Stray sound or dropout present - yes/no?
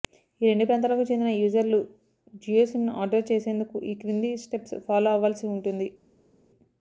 no